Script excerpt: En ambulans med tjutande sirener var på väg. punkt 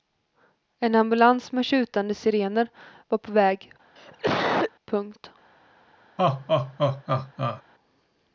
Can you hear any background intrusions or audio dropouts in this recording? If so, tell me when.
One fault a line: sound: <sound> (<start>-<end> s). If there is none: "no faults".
sound: cough (4.0-4.7 s)
sound: laugh (6.2-7.6 s)